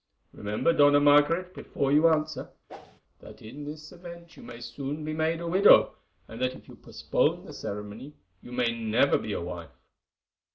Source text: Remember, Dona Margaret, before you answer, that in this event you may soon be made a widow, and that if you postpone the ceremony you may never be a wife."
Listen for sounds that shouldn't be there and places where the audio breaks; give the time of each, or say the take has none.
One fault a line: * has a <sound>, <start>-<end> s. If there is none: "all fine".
* has a whoosh, 2.7-3.0 s